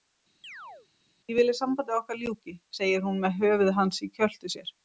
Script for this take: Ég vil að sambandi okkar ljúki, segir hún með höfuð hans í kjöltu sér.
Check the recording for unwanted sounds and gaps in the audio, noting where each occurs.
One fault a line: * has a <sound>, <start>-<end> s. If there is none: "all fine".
* has a chirp, 0.4-0.9 s